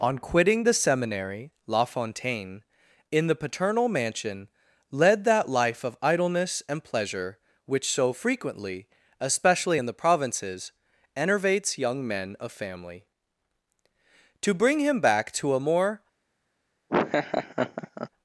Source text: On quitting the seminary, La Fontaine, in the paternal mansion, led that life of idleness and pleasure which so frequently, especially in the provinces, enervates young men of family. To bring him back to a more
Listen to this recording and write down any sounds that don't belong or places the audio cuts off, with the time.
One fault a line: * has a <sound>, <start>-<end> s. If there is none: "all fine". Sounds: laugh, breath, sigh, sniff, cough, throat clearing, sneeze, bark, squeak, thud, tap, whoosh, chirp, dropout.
* has a laugh, 16.9-18.1 s